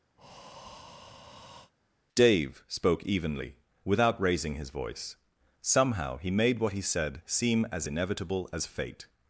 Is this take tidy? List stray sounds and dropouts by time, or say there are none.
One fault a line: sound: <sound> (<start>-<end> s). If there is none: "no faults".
sound: breath (0.2-1.7 s)